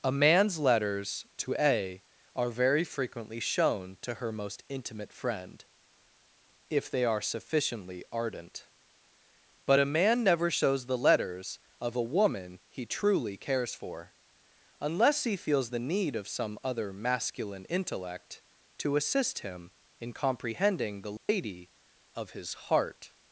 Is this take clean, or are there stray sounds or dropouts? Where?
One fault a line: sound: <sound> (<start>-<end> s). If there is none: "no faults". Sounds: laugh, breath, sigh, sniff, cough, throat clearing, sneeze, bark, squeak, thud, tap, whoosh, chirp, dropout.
sound: dropout (21.2-21.3 s)